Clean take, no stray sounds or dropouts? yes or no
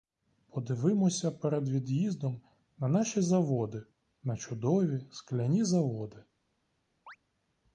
no